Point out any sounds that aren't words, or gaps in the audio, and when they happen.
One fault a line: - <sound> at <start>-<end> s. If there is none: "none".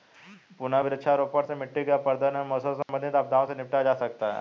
- dropout at 2.8-2.9 s